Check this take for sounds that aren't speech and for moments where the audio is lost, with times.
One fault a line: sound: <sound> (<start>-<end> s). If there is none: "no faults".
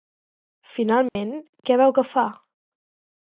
sound: dropout (1.1-1.2 s)